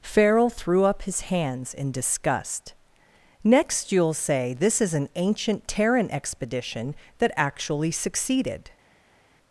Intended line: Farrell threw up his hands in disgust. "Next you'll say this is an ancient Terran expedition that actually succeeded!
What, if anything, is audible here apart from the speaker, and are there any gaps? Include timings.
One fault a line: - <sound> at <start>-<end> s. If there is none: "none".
none